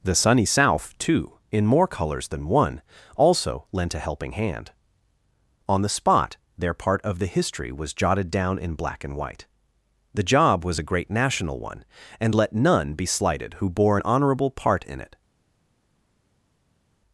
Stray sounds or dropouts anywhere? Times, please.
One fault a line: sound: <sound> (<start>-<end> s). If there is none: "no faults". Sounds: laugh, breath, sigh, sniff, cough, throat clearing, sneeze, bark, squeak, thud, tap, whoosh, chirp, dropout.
no faults